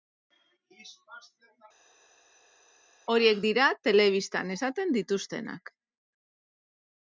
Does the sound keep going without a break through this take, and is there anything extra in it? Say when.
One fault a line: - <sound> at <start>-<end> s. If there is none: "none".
none